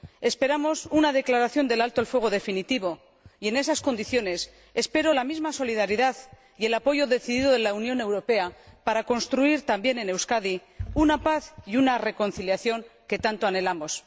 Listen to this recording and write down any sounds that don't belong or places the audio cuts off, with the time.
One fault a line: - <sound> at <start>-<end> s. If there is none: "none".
none